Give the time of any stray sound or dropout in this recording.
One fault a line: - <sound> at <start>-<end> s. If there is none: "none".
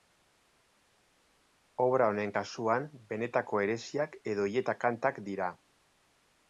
none